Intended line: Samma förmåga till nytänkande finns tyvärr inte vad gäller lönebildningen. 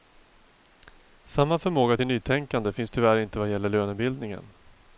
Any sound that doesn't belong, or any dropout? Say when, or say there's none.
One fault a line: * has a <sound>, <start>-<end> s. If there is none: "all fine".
all fine